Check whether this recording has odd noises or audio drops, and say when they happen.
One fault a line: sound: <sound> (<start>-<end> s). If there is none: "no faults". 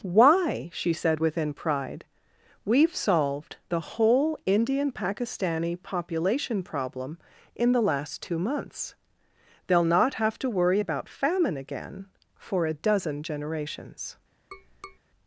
sound: tap (14.5-15.0 s)